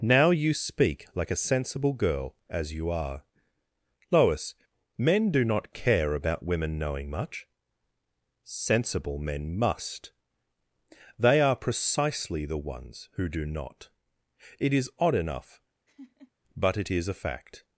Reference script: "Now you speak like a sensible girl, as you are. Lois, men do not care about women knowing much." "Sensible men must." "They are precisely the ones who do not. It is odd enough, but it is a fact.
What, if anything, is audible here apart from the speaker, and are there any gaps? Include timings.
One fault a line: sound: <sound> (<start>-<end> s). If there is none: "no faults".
sound: laugh (15.9-16.3 s)